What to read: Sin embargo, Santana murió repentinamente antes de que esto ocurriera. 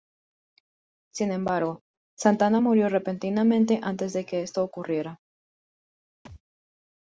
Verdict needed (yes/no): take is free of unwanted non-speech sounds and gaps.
no